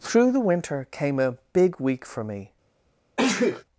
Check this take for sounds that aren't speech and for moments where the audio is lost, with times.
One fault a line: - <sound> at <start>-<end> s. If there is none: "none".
- sneeze at 3.2-3.6 s